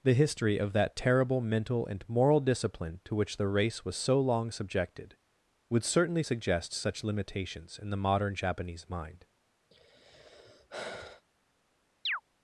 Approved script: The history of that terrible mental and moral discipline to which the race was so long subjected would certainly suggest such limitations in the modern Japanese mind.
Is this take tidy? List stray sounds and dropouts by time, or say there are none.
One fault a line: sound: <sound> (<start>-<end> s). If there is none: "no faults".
sound: sigh (9.7-11.2 s)
sound: chirp (12.1-12.2 s)